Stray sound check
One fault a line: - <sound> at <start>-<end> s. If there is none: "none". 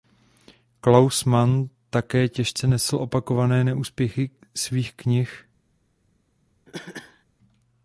- cough at 6.7-7.2 s